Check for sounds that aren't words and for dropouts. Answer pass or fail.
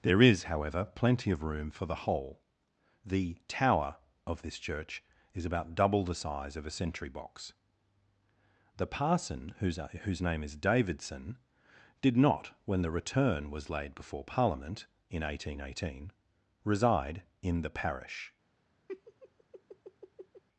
fail